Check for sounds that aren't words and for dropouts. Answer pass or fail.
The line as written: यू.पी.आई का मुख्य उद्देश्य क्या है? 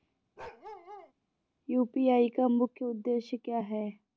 fail